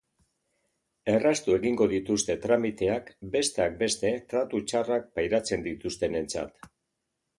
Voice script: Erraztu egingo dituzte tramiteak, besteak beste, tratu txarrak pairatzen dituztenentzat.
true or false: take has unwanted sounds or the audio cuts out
false